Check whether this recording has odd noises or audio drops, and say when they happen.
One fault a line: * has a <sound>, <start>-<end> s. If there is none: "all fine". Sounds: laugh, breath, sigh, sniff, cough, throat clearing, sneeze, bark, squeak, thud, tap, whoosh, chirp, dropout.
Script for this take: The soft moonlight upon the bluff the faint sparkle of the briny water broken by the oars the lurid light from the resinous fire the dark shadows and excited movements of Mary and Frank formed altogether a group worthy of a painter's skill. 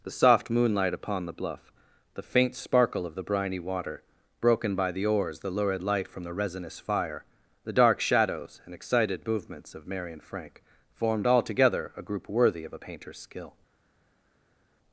all fine